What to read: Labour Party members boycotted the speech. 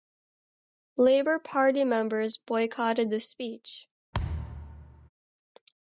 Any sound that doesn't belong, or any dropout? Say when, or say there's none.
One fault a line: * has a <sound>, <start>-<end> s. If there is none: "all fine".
* has a thud, 4.1-5.1 s